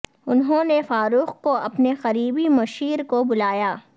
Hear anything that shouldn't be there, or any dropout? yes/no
no